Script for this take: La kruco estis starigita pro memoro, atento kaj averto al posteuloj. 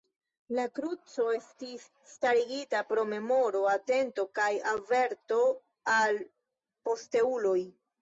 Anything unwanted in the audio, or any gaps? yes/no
no